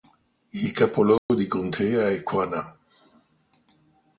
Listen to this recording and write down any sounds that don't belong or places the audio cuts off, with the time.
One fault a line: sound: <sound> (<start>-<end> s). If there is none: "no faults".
sound: dropout (1.2-1.3 s)